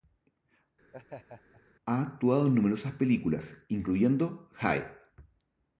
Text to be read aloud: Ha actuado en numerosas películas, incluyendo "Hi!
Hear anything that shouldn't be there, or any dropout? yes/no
yes